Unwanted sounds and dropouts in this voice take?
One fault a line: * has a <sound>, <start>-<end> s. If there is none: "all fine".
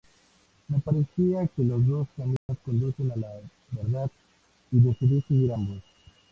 * has a dropout, 2.4-2.5 s